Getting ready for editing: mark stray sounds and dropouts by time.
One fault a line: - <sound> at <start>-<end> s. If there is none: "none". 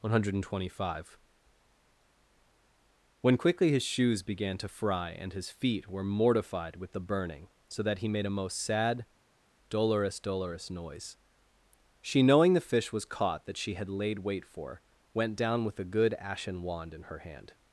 none